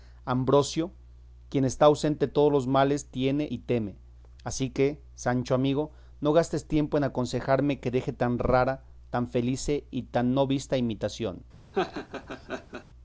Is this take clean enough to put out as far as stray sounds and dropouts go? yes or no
no